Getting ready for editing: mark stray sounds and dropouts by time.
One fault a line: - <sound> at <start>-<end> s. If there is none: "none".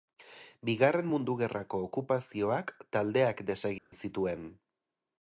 - dropout at 3.8-3.9 s